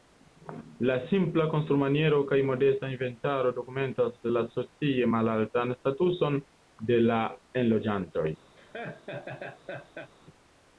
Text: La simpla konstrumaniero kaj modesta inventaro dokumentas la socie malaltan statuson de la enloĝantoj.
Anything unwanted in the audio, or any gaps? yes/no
yes